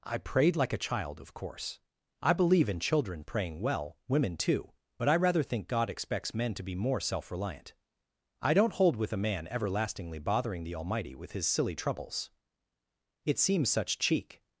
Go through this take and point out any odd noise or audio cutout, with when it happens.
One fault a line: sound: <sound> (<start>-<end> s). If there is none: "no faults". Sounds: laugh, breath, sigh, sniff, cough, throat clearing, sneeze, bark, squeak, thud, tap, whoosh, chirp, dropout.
no faults